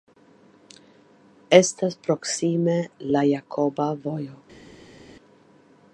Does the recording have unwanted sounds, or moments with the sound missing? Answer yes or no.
no